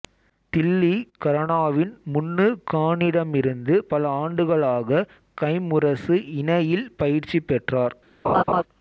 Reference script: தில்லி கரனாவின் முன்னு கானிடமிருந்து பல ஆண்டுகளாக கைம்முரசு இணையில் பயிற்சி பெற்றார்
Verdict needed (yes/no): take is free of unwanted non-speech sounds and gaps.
no